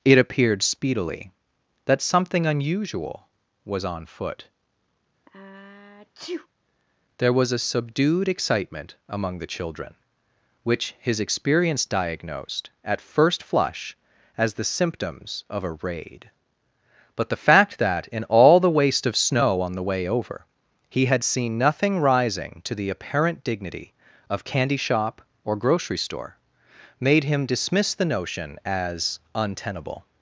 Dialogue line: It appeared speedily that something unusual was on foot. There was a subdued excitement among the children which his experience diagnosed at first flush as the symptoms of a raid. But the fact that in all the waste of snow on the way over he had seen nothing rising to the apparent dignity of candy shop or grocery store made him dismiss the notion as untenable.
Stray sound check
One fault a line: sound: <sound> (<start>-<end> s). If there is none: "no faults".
sound: sneeze (5.3-6.5 s)